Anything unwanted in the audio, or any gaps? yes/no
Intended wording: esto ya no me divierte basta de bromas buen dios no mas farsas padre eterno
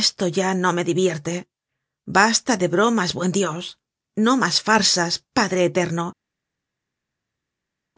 no